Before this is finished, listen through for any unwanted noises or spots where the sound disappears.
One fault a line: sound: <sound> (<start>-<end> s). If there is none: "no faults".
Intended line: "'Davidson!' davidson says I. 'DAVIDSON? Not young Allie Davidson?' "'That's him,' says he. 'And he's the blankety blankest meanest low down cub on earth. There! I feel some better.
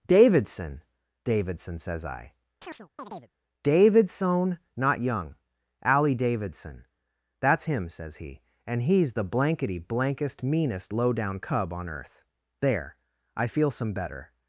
sound: chirp (2.6-3.3 s)